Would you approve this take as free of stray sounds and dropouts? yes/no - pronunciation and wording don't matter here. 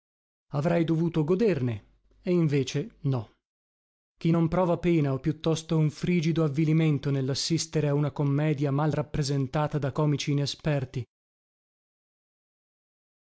yes